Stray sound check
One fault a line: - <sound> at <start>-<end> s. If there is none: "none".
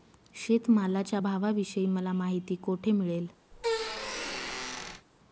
- squeak at 3.5-5.1 s